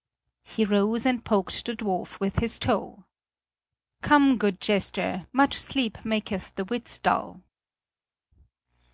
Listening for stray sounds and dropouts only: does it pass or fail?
pass